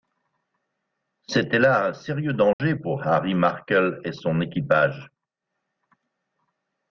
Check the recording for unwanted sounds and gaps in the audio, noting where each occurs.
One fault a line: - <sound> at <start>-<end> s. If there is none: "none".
- dropout at 2.5-2.6 s